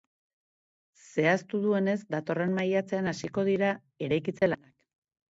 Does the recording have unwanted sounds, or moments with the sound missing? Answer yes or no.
yes